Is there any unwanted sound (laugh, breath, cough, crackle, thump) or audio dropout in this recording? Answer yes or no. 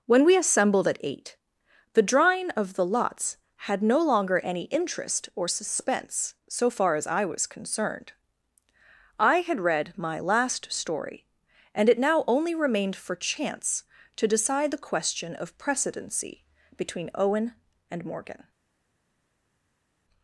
no